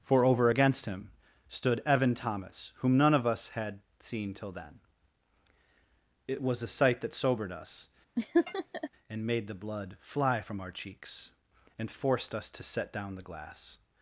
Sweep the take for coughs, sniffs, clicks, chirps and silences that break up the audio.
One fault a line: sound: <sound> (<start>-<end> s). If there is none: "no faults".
sound: laugh (8.2-8.9 s)